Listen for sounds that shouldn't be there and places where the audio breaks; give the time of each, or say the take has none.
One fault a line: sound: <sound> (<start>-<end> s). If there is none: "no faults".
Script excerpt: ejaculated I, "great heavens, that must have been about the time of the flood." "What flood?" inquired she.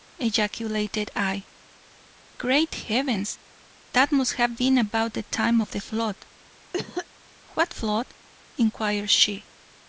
sound: cough (6.7-7.1 s)